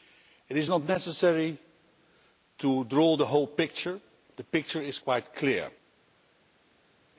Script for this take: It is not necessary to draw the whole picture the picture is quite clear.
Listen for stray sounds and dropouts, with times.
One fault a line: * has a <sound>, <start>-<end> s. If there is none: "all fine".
all fine